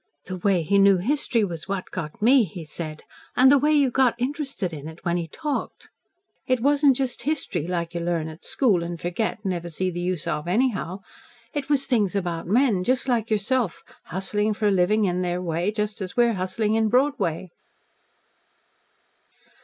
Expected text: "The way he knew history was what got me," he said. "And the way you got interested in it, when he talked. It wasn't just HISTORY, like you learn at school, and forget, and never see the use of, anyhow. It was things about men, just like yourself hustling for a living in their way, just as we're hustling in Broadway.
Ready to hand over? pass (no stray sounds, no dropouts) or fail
pass